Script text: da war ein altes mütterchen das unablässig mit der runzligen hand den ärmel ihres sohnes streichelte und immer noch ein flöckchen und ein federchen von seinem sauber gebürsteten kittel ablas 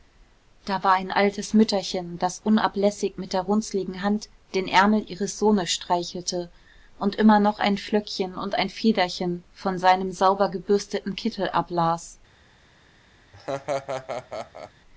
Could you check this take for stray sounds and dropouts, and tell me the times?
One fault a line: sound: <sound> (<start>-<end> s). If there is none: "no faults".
sound: laugh (13.3-14.7 s)